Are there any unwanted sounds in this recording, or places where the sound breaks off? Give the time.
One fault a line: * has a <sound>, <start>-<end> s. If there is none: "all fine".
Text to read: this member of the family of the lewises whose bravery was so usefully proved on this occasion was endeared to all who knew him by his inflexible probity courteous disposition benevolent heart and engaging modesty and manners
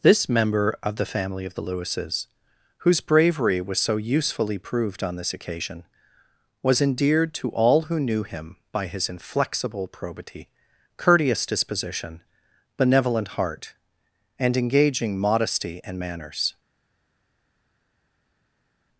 all fine